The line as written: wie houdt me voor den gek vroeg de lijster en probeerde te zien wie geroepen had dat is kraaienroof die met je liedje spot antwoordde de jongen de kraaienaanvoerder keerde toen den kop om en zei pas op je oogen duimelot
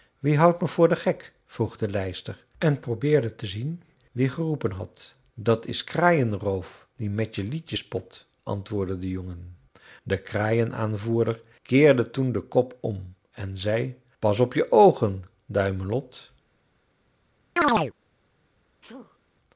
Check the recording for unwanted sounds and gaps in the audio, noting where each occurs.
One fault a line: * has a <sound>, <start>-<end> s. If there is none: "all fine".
* has a chirp, 17.6-17.9 s
* has a sneeze, 18.8-19.2 s